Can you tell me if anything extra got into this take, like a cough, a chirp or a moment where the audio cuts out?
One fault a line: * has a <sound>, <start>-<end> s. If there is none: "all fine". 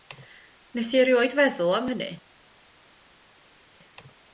all fine